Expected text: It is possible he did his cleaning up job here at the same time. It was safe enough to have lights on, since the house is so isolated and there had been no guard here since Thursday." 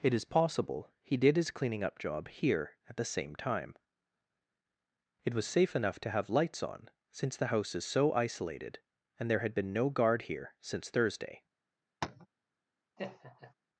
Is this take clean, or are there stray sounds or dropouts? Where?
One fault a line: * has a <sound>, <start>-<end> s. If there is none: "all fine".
* has a tap, 12.0-12.3 s
* has a laugh, 13.0-13.5 s